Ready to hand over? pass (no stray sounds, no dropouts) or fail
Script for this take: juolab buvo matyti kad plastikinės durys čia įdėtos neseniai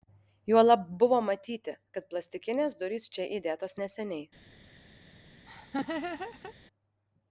fail